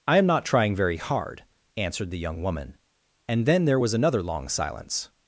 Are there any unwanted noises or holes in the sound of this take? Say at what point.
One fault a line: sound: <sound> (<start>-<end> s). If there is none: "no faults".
no faults